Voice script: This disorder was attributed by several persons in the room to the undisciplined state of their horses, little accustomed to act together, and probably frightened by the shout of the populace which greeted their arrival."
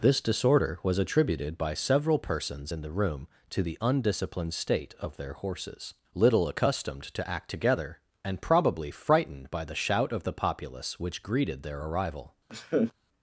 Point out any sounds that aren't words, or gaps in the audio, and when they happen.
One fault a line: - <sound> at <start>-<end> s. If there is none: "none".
- laugh at 12.5-12.9 s